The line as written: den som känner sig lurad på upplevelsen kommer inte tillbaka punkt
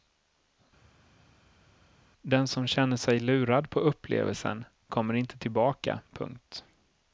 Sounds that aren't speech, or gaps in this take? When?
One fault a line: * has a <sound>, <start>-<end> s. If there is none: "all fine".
all fine